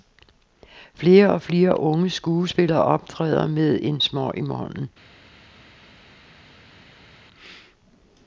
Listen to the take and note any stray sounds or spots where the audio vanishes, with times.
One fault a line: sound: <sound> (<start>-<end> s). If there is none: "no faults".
no faults